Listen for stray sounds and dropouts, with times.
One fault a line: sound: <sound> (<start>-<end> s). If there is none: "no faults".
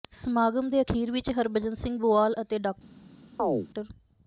sound: chirp (3.4-3.7 s)